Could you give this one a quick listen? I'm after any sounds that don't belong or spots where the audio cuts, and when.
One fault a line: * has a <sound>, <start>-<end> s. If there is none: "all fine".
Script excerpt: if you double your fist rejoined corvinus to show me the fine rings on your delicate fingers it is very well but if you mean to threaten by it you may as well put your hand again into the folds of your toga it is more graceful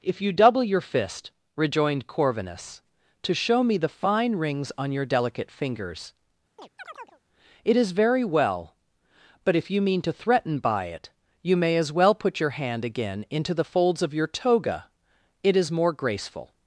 * has a chirp, 6.6-7.2 s